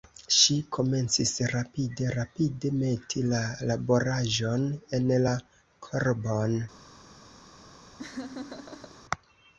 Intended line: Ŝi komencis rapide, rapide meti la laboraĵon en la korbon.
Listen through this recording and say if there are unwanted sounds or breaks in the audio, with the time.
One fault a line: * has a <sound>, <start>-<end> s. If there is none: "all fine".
* has a laugh, 8.0-9.0 s